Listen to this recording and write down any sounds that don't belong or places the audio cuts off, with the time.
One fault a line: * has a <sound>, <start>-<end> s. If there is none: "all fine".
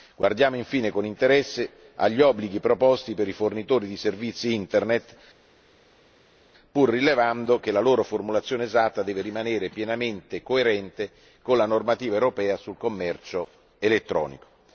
all fine